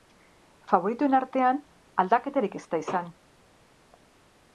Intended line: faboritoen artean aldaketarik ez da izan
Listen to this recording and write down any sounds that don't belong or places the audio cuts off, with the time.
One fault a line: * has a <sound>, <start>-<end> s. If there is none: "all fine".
all fine